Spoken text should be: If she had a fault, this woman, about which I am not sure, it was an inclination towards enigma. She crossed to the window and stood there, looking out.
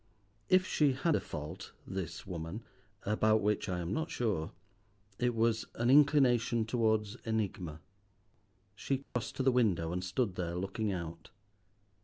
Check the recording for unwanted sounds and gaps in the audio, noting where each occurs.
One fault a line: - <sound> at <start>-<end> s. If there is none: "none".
- dropout at 9.0-9.2 s